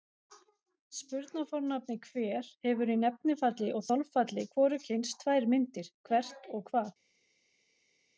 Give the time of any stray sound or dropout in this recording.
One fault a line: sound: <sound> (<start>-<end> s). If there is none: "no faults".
no faults